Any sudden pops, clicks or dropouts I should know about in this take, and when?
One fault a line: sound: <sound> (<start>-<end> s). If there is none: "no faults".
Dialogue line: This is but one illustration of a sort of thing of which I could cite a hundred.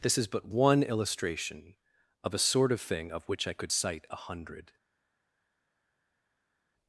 no faults